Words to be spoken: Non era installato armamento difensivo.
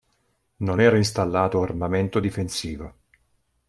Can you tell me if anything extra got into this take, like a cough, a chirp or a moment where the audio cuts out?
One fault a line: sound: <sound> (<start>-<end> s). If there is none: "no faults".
no faults